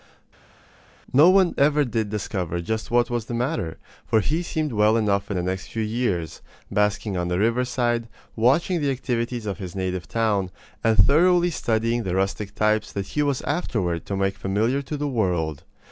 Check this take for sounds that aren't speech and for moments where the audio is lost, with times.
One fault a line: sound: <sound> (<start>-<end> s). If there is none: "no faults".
no faults